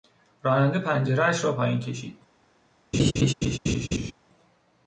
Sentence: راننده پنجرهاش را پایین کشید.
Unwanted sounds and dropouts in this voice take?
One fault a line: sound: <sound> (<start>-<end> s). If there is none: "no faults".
sound: laugh (2.9-4.1 s)